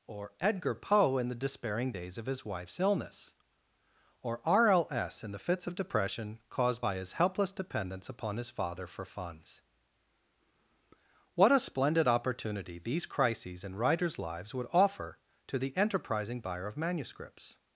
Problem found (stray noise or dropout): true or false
false